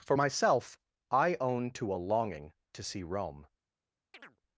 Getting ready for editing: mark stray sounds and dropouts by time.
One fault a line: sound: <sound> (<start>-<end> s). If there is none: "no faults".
sound: chirp (4.1-4.4 s)